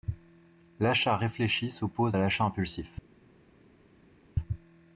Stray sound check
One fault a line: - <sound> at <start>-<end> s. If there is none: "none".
none